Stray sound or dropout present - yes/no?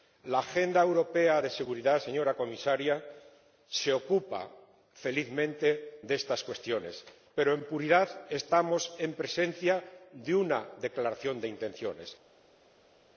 no